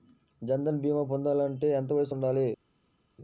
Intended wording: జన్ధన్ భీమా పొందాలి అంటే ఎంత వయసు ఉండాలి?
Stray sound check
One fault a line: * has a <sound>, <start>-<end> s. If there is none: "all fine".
all fine